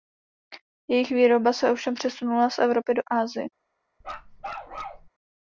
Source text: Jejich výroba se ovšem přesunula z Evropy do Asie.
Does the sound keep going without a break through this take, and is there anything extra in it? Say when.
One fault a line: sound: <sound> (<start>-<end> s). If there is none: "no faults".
sound: bark (4.0-5.1 s)